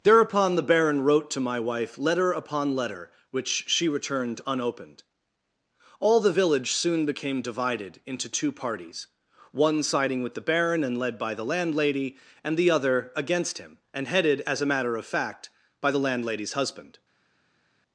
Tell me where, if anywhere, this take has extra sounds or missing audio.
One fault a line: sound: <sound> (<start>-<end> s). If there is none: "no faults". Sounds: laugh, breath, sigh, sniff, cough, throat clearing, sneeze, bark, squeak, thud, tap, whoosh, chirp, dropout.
no faults